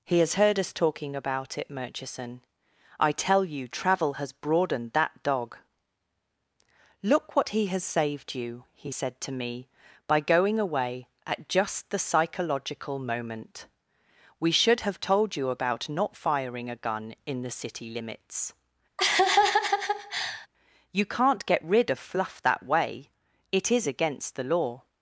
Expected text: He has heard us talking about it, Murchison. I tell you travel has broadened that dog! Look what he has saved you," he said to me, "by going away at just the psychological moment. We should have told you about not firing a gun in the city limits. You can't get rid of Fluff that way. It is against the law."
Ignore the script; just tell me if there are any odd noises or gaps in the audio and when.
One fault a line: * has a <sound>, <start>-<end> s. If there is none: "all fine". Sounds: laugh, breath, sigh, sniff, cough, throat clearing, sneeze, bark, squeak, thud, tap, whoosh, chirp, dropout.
* has a laugh, 19.0-20.5 s